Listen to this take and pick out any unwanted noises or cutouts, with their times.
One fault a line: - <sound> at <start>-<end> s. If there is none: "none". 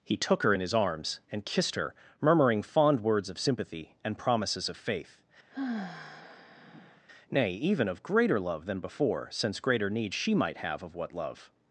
- sigh at 5.5-7.0 s